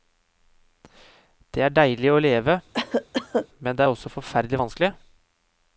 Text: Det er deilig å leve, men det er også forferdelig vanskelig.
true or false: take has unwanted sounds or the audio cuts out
true